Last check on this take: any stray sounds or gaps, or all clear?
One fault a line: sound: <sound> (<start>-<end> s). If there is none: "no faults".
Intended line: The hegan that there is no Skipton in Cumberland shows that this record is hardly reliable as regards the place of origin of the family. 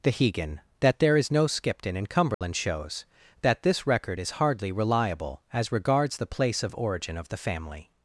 sound: dropout (2.3-2.4 s)